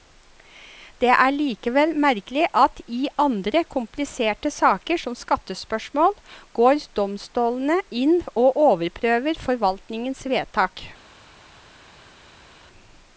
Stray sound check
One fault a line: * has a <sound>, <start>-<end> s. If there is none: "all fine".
all fine